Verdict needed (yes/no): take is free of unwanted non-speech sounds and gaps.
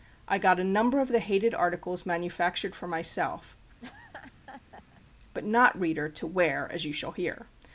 no